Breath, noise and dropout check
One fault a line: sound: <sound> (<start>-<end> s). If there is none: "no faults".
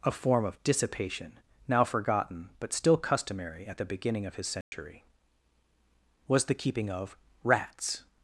sound: dropout (4.6-4.7 s)